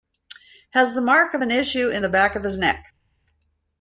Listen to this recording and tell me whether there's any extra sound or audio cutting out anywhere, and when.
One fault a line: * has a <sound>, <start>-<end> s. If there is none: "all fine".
all fine